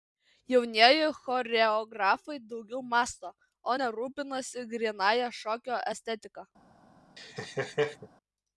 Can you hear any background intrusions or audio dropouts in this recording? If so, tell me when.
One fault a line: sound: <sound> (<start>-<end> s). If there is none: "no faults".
sound: laugh (7.2-8.1 s)